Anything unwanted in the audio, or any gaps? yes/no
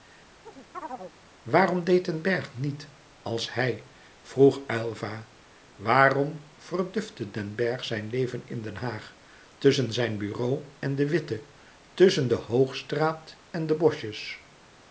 yes